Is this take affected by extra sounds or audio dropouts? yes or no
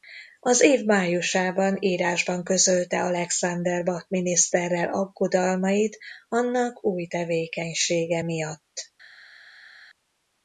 no